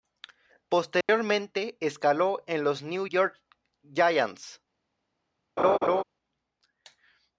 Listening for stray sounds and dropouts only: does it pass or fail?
fail